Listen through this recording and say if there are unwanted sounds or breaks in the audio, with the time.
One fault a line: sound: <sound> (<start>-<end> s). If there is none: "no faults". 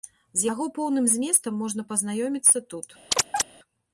sound: chirp (3.1-3.4 s)